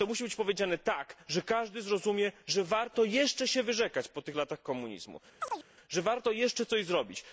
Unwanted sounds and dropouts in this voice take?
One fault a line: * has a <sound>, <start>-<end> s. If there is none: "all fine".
* has a chirp, 5.4-5.7 s